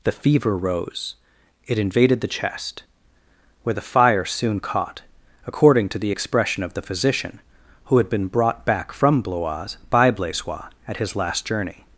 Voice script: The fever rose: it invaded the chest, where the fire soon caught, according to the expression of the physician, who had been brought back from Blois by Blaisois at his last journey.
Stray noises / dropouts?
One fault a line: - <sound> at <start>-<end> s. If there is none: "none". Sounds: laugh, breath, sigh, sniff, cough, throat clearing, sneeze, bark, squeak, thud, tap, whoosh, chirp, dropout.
none